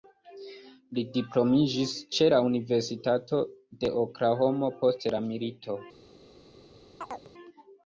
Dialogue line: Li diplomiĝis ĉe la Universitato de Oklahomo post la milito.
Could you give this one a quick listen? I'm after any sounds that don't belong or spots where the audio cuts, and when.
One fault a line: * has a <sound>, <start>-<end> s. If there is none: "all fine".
* has a chirp, 7.0-7.3 s